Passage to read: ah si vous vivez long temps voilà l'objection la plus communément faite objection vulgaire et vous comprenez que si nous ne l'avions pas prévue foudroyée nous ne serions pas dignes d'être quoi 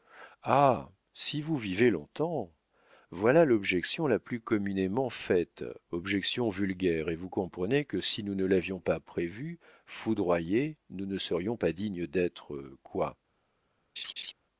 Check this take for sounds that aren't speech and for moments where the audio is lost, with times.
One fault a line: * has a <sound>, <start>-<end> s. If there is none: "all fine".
* has a laugh, 14.0-14.3 s